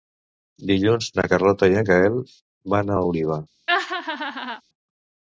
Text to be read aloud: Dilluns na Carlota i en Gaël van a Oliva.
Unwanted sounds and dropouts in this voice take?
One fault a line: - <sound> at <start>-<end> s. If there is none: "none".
- laugh at 3.7-4.6 s